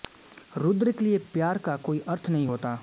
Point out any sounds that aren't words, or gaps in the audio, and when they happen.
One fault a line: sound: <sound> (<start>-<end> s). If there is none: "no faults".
no faults